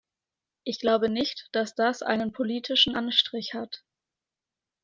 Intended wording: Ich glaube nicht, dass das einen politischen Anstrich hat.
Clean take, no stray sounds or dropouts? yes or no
yes